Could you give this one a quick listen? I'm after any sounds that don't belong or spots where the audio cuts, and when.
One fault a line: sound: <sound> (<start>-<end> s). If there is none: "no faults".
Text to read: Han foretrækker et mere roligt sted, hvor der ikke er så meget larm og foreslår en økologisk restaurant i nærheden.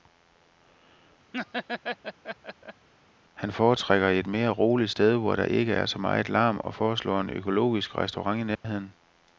sound: laugh (1.3-2.9 s)
sound: dropout (8.5-8.6 s)